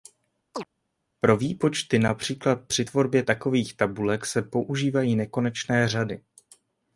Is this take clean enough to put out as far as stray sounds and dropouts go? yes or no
no